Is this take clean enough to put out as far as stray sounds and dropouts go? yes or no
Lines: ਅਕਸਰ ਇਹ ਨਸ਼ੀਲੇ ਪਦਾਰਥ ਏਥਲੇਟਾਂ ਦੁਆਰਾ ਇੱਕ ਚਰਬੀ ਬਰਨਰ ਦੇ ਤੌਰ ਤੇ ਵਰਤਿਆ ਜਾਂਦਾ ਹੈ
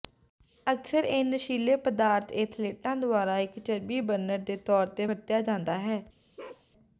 no